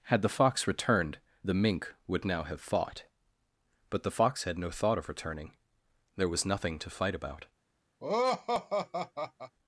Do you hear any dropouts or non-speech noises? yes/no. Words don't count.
yes